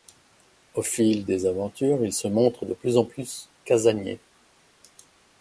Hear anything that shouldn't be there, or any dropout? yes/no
no